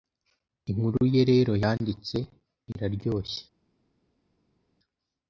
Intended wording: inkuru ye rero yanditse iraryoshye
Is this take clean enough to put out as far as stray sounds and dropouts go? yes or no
yes